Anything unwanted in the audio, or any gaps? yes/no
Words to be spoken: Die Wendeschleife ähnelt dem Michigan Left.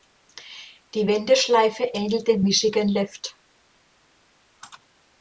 no